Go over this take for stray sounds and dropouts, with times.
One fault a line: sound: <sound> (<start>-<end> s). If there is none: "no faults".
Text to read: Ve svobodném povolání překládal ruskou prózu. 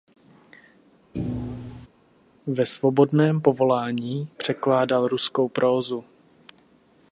sound: thud (1.1-1.9 s)